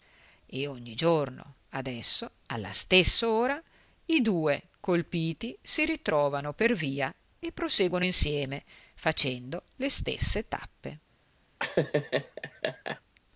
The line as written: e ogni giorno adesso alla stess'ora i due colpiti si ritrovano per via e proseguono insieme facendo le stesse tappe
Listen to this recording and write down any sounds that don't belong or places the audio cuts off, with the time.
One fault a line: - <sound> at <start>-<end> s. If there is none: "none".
- laugh at 11.6-13.0 s